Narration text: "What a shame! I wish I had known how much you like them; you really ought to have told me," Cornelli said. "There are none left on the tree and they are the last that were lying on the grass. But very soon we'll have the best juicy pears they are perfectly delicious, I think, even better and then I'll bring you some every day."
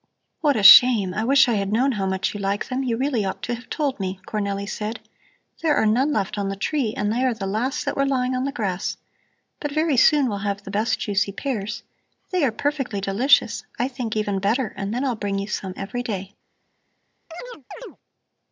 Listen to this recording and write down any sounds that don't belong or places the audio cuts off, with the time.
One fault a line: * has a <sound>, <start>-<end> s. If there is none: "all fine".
* has a chirp, 17.3-18.0 s